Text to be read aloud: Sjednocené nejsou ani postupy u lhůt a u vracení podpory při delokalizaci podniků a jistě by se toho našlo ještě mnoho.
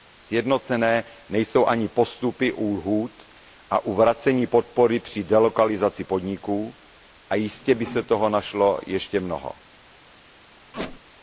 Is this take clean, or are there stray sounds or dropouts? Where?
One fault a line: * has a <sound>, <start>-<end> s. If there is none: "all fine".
* has a squeak, 10.7-11.0 s